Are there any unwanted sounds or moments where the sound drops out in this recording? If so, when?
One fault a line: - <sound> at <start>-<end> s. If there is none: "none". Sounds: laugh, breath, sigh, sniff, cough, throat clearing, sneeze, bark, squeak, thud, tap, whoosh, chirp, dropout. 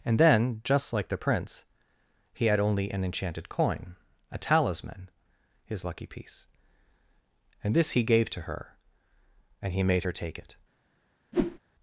- whoosh at 11.3-11.6 s